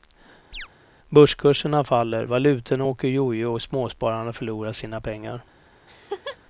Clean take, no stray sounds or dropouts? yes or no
no